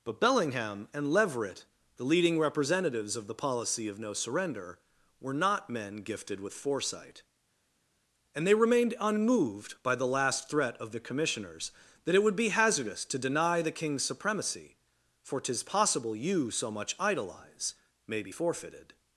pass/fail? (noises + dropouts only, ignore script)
pass